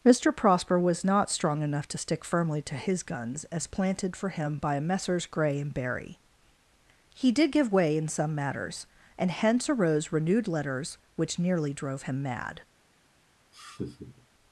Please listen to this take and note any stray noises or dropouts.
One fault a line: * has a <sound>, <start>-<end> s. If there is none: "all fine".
* has a laugh, 13.5-14.3 s